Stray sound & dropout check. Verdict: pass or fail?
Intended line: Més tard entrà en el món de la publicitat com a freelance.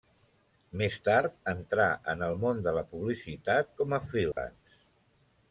fail